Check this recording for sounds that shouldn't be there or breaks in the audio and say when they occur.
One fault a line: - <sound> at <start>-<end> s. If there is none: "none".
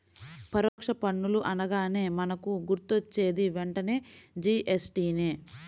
- dropout at 0.7-0.8 s